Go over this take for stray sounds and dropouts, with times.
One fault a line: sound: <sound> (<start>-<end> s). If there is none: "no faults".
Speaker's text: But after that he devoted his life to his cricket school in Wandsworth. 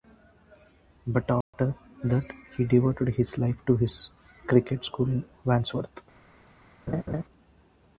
sound: dropout (1.4-1.5 s)
sound: laugh (6.9-7.2 s)